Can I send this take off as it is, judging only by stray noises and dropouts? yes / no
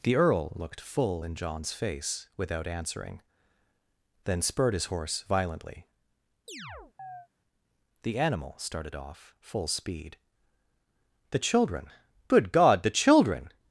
no